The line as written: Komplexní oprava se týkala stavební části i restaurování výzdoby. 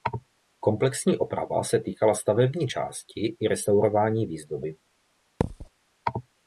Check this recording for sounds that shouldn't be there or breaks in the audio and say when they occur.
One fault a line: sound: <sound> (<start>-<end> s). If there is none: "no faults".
sound: thud (5.4-5.7 s)